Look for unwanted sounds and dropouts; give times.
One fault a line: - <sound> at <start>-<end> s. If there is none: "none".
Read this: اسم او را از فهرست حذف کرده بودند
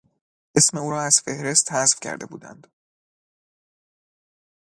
none